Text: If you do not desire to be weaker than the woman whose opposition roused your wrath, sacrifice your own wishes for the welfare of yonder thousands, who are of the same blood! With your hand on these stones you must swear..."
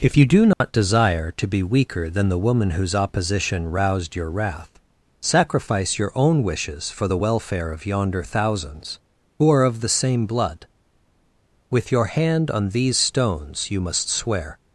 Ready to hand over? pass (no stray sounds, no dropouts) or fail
fail